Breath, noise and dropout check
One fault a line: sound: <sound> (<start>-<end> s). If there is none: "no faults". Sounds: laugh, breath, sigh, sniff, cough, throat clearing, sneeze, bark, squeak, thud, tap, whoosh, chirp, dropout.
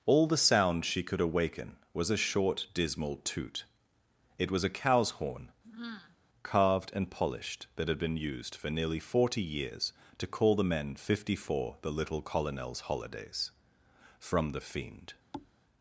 sound: sigh (5.6-6.2 s)
sound: thud (15.3-15.5 s)